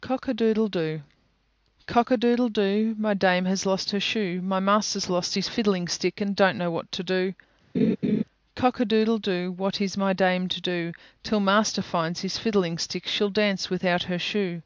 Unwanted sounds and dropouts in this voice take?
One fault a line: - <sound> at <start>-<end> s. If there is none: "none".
- laugh at 7.7-8.2 s